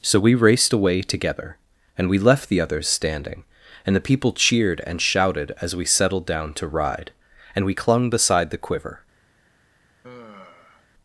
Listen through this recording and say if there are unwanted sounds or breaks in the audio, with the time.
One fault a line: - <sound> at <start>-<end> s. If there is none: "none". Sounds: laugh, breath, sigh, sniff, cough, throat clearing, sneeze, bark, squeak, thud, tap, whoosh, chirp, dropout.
- sigh at 10.0-10.9 s